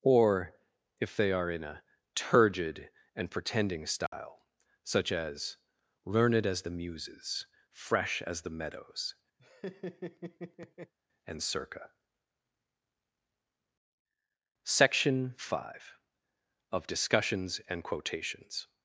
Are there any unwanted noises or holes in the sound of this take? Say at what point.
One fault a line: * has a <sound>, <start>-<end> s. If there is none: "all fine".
* has a dropout, 4.1-4.1 s
* has a laugh, 9.4-10.9 s